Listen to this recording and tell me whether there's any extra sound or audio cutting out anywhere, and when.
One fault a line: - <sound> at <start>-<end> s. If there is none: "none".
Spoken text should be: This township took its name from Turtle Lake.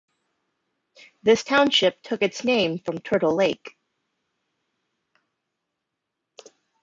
none